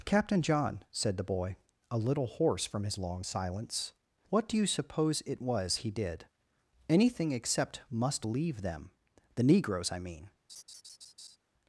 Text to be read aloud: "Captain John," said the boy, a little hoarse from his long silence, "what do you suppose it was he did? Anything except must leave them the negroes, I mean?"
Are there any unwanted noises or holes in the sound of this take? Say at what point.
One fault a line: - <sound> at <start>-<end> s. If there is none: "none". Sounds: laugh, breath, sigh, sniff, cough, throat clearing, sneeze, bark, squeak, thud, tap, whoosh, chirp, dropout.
- laugh at 10.5-11.4 s